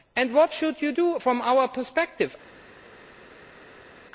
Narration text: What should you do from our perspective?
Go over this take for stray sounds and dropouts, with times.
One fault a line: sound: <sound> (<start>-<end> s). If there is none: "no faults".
no faults